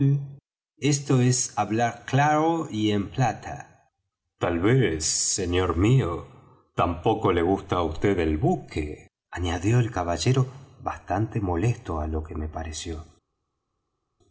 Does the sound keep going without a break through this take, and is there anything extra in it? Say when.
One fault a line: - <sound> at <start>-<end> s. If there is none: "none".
none